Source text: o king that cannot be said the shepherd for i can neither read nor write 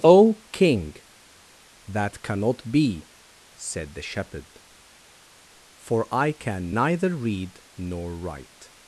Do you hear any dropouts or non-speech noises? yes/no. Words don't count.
no